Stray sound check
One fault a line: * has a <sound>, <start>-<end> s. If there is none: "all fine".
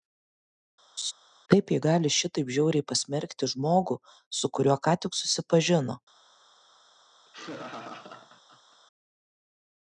* has a laugh, 1.0-1.1 s
* has a laugh, 7.3-8.8 s